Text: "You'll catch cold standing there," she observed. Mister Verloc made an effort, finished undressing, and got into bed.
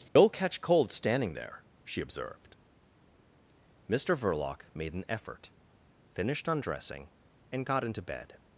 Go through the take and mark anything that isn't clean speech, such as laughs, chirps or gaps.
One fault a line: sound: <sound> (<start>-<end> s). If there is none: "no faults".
sound: dropout (0.1-0.2 s)